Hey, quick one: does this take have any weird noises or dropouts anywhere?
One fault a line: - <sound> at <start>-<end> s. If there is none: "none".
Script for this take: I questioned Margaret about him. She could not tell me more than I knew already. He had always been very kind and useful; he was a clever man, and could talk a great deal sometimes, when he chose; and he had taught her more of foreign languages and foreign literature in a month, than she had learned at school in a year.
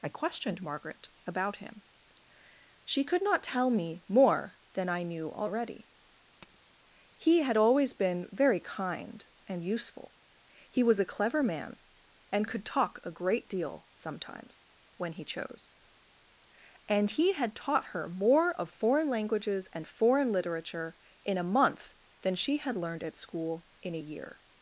- tap at 6.4-6.6 s